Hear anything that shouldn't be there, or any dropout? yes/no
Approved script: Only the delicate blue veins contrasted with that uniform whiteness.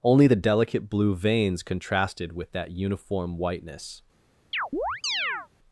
yes